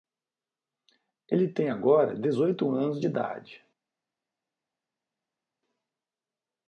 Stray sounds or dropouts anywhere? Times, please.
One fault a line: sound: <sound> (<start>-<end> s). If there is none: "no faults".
no faults